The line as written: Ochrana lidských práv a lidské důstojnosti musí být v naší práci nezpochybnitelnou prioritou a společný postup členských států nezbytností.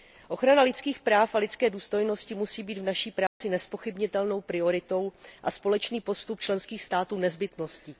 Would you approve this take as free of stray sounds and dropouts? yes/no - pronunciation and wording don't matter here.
no